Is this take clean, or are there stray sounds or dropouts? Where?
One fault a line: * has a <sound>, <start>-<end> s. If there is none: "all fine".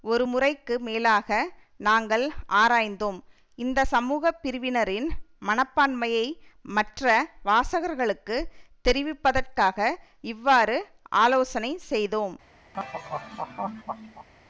* has a laugh, 12.7-14.3 s